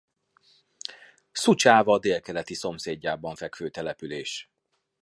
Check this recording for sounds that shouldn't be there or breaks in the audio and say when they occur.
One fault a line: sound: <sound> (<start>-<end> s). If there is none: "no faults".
no faults